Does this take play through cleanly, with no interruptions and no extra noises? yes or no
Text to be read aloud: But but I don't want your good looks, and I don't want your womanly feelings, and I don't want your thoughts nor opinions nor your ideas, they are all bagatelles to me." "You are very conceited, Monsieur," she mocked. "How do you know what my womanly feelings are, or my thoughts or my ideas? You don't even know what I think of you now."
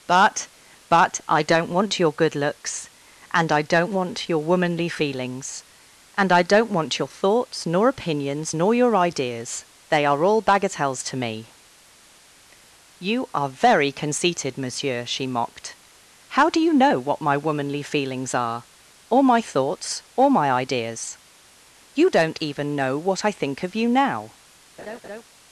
no